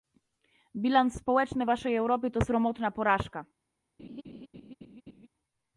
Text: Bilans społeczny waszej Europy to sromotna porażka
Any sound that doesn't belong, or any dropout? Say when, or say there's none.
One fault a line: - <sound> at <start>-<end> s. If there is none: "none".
- laugh at 4.0-5.3 s